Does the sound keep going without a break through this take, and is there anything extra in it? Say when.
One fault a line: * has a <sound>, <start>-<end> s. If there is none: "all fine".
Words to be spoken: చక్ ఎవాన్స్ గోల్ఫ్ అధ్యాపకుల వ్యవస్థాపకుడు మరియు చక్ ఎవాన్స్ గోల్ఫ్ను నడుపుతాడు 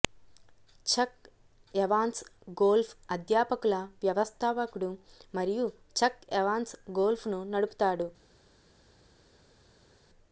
all fine